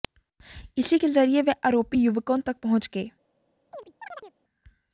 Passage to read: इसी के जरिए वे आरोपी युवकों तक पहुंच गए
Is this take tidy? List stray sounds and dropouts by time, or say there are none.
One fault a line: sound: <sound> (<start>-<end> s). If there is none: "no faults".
sound: chirp (3.7-4.3 s)